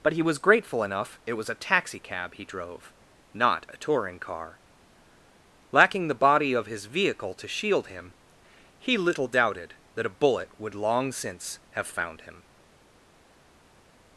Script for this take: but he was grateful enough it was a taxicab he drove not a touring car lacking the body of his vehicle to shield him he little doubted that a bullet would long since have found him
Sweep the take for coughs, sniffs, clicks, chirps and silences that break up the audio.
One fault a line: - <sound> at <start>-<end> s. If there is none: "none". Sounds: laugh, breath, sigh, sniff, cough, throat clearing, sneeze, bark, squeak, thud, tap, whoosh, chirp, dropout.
none